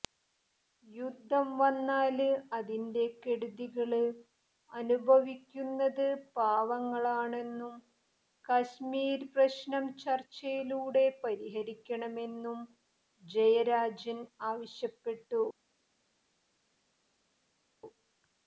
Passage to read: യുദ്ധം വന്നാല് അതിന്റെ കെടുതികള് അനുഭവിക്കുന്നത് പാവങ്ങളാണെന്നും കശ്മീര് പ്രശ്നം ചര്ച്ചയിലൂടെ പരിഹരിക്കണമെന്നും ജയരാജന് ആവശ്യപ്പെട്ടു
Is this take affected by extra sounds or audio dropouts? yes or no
no